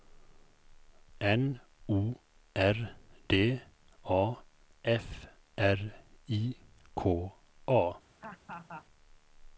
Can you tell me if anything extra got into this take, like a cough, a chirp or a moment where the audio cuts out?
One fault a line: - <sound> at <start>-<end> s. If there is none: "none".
- laugh at 8.2-8.9 s